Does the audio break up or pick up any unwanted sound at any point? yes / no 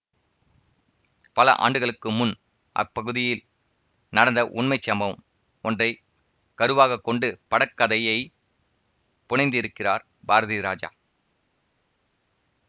no